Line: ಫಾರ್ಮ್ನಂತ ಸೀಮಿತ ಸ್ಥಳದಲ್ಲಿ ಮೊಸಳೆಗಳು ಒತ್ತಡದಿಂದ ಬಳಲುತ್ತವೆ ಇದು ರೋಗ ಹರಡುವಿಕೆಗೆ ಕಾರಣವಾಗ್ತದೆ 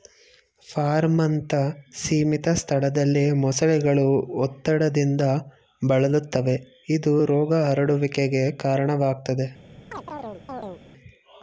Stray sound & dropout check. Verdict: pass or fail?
fail